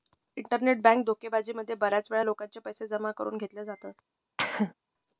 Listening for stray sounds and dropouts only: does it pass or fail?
fail